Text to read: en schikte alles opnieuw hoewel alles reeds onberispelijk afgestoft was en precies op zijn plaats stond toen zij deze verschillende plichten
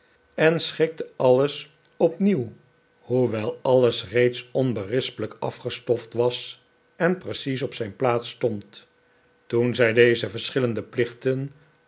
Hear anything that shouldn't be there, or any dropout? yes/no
no